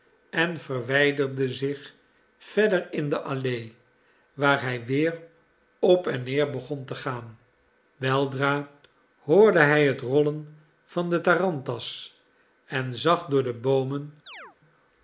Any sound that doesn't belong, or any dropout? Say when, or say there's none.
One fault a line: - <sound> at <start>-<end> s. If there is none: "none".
- chirp at 14.3-14.6 s